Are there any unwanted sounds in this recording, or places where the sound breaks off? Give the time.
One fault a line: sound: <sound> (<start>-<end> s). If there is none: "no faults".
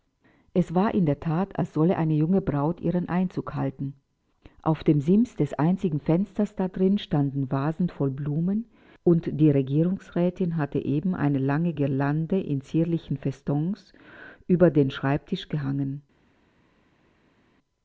no faults